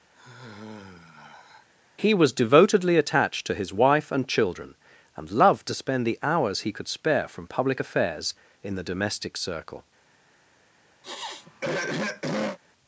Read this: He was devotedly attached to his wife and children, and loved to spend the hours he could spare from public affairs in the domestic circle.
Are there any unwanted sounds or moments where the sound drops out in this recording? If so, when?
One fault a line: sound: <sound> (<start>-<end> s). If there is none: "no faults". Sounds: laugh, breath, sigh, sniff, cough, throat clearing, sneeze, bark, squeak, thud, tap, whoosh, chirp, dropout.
sound: sigh (0.1-1.7 s)
sound: throat clearing (11.0-12.6 s)